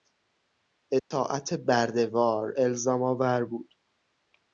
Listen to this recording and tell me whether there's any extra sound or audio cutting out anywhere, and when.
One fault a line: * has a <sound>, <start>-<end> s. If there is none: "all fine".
* has a dropout, 1.0-1.1 s